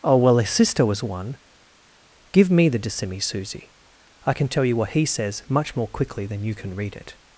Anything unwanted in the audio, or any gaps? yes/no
no